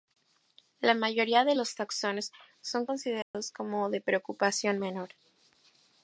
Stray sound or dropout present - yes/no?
yes